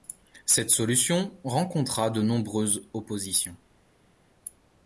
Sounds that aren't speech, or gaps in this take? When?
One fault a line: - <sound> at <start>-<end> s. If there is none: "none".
none